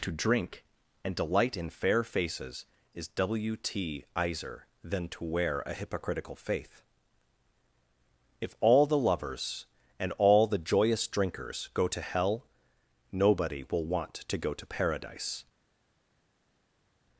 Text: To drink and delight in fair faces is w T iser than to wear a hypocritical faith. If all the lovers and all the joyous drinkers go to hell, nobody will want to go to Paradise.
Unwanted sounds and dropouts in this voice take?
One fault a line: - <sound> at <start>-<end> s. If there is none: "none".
none